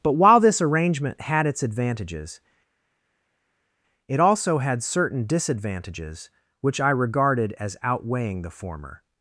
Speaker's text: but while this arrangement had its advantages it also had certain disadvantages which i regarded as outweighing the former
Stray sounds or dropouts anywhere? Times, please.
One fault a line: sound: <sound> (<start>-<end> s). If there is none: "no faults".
no faults